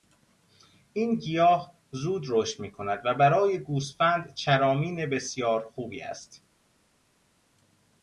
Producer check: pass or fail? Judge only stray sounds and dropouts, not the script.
pass